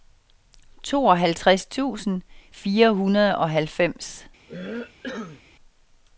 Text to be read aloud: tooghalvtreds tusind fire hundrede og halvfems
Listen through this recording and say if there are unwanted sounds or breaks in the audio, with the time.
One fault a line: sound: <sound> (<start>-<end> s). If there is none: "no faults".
sound: cough (4.5-5.4 s)